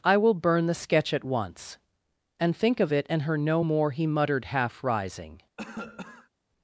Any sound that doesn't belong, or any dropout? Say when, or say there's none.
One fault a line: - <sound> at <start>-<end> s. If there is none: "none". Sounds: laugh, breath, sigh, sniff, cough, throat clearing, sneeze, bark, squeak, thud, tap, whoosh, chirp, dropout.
- cough at 5.6-6.3 s